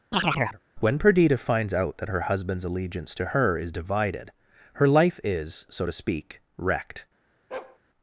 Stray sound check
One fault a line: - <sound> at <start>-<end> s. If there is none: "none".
- chirp at 0.1-0.6 s
- bark at 7.5-7.8 s